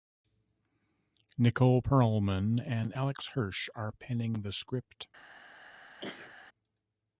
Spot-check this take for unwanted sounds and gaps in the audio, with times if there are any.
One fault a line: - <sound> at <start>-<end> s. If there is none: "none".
- sneeze at 6.0-6.3 s